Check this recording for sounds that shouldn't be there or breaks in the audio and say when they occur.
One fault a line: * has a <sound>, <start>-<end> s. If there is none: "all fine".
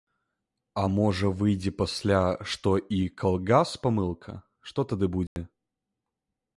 * has a dropout, 5.3-5.4 s